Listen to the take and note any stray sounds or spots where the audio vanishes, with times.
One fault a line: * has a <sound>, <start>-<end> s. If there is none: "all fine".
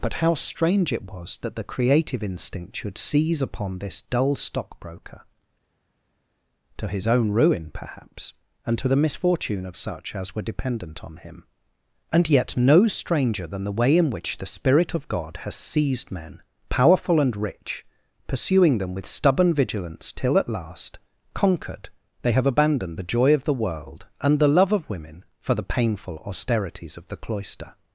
all fine